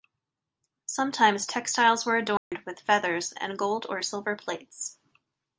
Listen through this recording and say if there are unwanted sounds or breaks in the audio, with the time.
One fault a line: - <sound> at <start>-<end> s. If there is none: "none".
- dropout at 2.4-2.5 s